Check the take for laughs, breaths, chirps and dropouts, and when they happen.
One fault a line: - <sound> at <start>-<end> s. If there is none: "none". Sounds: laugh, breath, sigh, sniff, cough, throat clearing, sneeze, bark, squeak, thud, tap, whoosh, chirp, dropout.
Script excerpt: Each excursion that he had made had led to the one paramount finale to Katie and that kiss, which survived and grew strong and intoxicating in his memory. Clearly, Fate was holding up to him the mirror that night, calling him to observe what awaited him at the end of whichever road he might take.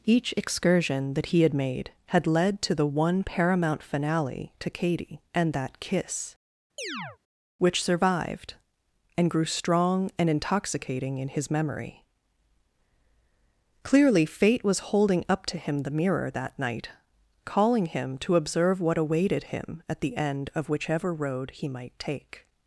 - chirp at 6.8-7.2 s